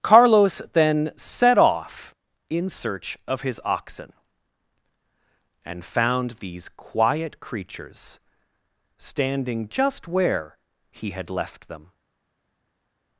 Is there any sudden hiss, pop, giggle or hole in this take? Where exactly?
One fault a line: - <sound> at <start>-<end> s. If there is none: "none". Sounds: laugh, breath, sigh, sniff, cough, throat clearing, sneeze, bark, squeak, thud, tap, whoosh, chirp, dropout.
none